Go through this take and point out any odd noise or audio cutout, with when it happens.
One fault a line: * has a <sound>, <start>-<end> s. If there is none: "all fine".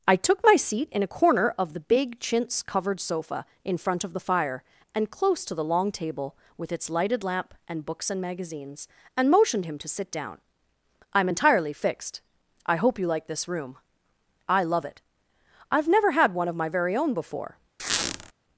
* has a squeak, 17.8-18.3 s